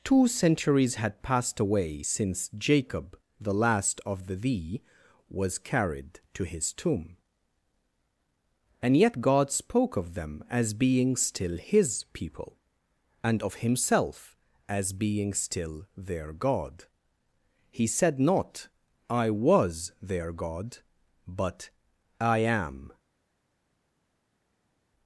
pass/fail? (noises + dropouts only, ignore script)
pass